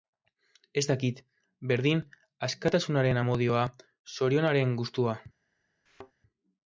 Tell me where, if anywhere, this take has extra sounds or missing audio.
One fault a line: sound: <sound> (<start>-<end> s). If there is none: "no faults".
sound: thud (5.9-6.1 s)